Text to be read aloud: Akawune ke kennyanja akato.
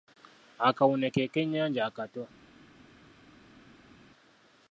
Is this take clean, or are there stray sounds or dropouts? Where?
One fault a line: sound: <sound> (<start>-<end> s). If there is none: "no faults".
no faults